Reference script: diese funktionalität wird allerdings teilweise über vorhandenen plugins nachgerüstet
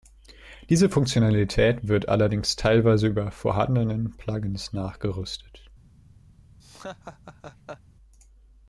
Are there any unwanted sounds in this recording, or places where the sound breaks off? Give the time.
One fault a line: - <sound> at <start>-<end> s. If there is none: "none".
- laugh at 6.6-7.8 s